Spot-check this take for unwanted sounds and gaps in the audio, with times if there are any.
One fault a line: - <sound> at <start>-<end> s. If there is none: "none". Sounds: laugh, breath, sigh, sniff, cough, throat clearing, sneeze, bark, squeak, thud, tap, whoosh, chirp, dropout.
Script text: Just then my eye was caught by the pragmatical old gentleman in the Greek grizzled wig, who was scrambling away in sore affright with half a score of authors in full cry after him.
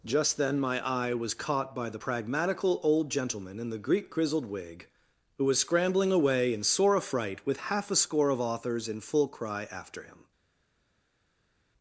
none